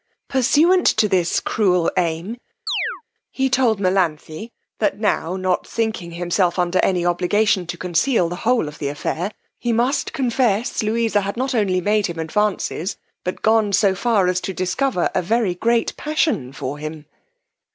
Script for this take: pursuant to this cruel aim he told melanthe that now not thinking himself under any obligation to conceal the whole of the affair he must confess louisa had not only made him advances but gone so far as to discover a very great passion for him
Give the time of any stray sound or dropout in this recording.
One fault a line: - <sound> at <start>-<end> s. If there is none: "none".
- chirp at 2.7-3.0 s